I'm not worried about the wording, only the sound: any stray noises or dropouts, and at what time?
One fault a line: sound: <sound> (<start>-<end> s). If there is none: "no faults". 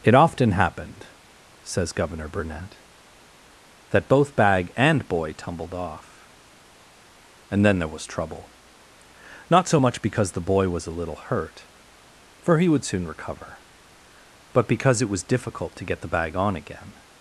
no faults